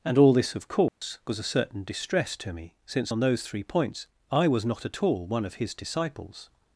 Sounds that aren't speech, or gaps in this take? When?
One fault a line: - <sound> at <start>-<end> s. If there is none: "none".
- dropout at 0.9-1.0 s